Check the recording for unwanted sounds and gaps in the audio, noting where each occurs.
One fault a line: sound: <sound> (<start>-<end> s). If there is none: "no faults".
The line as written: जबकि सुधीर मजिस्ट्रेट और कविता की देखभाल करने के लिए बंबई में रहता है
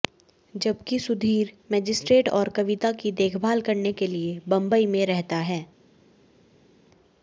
no faults